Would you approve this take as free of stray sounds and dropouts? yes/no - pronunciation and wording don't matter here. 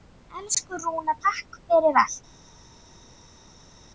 yes